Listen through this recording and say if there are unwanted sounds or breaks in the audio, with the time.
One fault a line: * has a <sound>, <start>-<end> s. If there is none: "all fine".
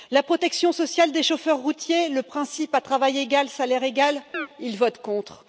* has a chirp, 4.3-4.5 s